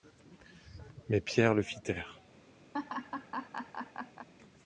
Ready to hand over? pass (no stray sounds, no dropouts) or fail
fail